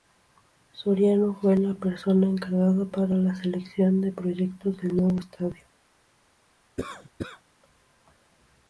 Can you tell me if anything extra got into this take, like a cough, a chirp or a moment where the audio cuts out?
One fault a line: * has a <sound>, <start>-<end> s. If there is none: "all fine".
* has a cough, 6.8-7.4 s